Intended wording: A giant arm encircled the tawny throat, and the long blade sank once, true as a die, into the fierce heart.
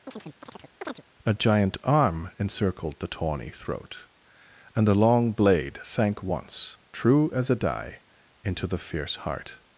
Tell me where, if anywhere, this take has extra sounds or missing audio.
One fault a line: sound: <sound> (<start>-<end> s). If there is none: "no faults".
sound: chirp (0.1-1.0 s)